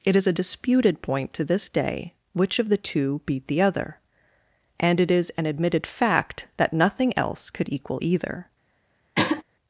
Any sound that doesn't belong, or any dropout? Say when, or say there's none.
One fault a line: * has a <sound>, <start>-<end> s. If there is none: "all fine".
* has a throat clearing, 9.1-9.4 s